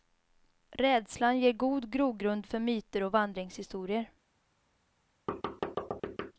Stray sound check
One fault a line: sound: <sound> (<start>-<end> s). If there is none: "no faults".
sound: thud (5.3-6.3 s)